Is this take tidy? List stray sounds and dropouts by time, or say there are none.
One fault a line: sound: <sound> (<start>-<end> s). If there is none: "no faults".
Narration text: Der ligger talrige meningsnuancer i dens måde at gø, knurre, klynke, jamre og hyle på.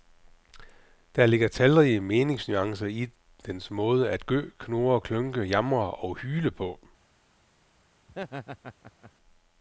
sound: laugh (8.1-9.1 s)